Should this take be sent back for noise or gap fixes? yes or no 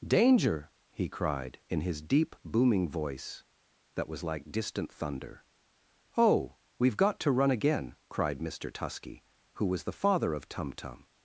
no